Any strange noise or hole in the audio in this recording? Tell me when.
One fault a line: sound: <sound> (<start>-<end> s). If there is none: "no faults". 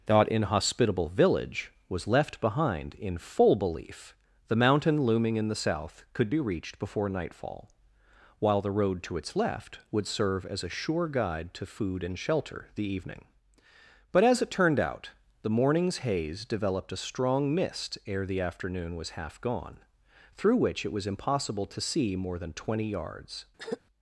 sound: throat clearing (23.6-23.8 s)